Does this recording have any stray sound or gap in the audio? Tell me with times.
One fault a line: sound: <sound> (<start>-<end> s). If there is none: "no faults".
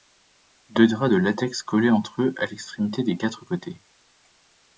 no faults